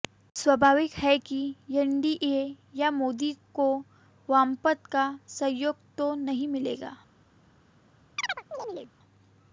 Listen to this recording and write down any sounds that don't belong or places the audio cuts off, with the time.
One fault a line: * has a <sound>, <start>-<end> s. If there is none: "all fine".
* has a chirp, 8.2-8.9 s